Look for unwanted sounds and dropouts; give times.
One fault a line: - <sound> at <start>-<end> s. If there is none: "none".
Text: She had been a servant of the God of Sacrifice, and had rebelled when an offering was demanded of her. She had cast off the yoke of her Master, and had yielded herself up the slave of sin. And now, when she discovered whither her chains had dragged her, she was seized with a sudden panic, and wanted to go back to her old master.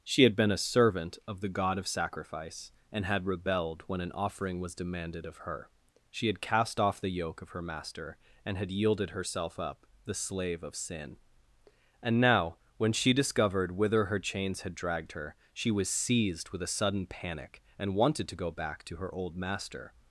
none